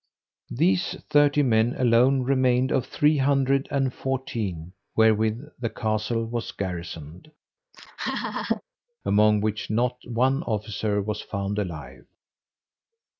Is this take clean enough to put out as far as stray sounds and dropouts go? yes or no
no